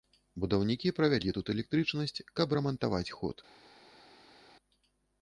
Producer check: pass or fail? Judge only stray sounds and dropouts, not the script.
pass